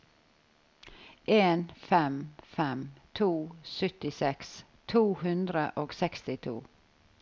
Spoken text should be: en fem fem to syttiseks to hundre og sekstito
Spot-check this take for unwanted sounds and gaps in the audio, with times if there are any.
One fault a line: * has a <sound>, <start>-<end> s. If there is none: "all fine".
all fine